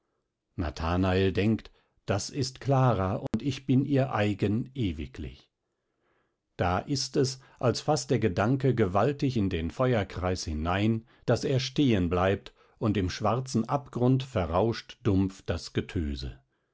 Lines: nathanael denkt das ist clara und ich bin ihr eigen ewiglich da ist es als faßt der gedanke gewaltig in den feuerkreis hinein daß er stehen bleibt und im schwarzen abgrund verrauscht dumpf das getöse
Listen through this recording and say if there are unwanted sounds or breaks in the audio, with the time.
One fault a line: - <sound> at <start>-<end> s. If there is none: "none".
- dropout at 3.3-3.3 s